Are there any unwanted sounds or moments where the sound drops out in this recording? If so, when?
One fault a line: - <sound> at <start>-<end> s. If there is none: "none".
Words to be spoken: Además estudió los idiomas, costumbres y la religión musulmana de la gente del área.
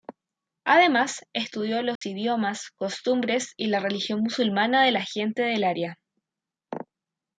- dropout at 2.0-2.0 s